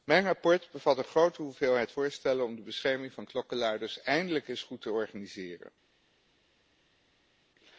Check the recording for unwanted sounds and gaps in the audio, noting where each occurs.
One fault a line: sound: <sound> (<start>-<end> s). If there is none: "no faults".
no faults